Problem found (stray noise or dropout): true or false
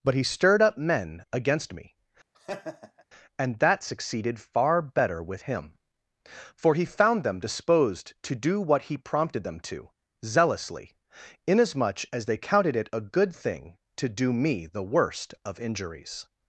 true